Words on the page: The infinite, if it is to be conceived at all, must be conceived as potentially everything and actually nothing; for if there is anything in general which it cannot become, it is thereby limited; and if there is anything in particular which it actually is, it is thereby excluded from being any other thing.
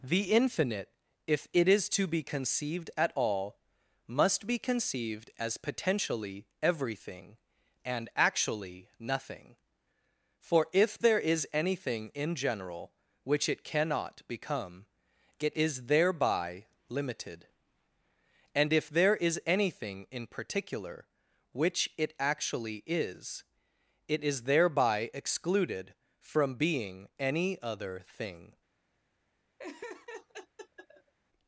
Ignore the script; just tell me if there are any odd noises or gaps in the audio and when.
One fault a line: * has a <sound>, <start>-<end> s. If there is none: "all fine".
* has a laugh, 29.6-31.1 s